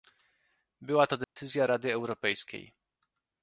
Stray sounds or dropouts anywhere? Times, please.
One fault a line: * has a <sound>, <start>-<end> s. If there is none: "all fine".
* has a dropout, 1.2-1.4 s